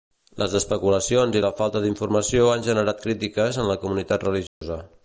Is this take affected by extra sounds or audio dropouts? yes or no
yes